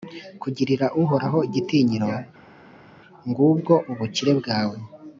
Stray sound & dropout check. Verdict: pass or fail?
pass